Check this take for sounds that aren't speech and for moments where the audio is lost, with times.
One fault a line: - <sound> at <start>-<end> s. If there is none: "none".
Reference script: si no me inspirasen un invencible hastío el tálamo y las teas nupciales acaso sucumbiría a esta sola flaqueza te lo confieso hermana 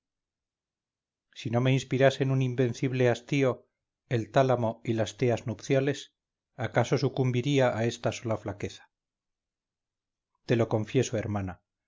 none